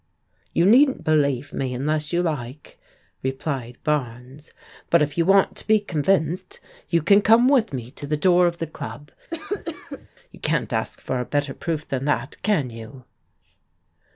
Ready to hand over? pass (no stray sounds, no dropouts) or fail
fail